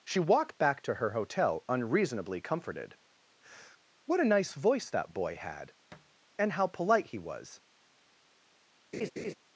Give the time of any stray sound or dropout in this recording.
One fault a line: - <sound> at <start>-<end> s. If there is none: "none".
- thud at 5.9-6.2 s
- laugh at 8.9-9.3 s